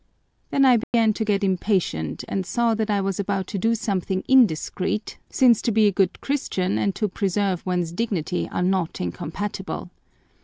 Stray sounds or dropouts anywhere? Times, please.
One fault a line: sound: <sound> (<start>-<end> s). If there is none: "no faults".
sound: dropout (0.8-0.9 s)